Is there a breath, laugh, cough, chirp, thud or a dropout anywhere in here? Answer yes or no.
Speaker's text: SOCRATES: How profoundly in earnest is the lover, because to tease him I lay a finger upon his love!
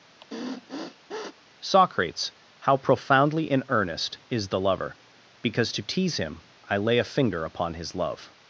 yes